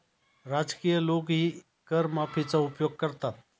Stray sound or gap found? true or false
false